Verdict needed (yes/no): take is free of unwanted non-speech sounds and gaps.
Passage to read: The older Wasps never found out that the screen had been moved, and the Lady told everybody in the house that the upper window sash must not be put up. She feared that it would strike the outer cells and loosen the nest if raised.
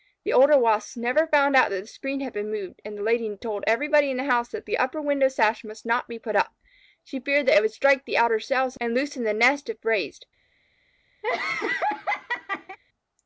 no